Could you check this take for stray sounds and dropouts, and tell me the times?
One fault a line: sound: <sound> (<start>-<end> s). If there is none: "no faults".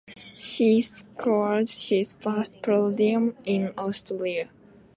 no faults